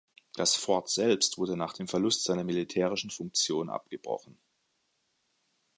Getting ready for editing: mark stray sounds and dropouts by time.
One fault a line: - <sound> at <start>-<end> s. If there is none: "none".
none